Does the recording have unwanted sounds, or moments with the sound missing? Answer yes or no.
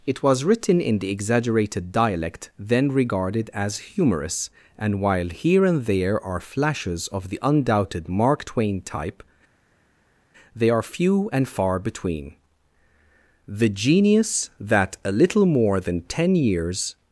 no